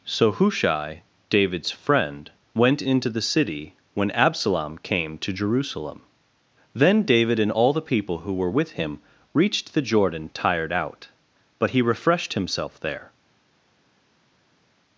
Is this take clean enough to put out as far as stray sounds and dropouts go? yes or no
yes